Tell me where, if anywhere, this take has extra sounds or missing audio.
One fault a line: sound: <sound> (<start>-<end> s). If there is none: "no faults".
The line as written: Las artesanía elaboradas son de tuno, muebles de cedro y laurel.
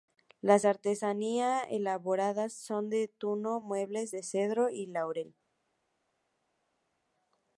no faults